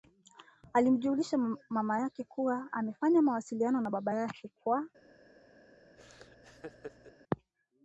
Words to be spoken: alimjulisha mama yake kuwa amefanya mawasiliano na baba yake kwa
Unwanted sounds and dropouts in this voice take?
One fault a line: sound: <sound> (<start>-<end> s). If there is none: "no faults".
sound: laugh (6.0-7.1 s)